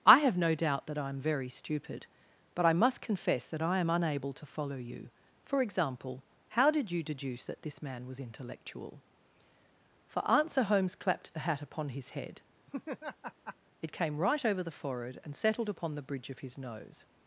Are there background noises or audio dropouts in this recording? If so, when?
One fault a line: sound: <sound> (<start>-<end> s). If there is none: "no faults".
sound: laugh (12.7-13.6 s)